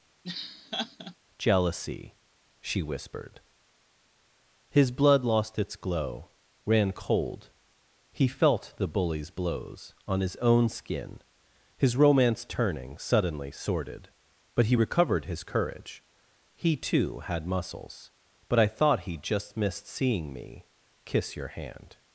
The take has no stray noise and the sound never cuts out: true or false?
false